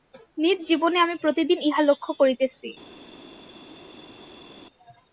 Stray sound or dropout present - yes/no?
no